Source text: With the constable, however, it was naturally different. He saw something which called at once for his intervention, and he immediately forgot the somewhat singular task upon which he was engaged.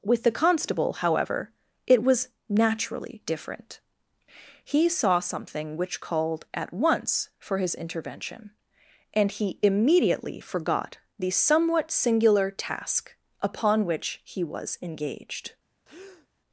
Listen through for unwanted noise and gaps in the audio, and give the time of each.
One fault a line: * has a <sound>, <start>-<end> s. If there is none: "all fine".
* has a breath, 15.8-16.3 s